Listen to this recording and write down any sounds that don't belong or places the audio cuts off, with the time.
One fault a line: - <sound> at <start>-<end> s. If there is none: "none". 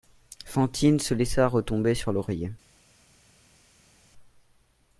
none